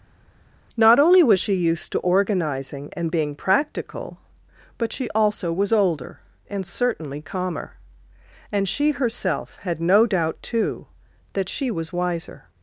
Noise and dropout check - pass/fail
pass